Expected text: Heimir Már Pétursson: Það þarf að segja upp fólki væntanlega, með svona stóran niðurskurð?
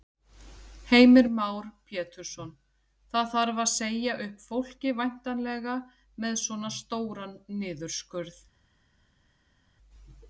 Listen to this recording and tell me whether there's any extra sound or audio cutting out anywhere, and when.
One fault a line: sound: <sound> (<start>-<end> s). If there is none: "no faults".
no faults